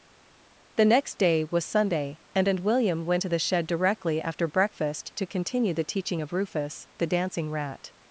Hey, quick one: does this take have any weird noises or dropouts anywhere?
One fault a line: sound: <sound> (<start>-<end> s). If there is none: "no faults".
no faults